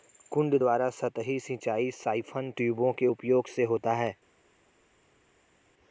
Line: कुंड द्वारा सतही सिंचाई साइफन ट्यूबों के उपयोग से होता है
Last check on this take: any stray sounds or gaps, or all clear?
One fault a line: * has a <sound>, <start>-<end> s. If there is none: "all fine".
all fine